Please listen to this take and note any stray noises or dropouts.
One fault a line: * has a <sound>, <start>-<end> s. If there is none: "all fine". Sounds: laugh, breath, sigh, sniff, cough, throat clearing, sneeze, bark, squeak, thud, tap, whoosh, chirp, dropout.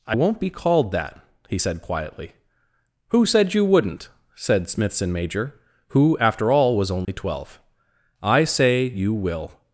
* has a dropout, 7.0-7.1 s